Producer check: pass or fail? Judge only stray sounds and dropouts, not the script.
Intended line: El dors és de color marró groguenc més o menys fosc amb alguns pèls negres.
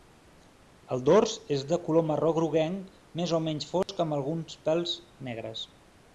fail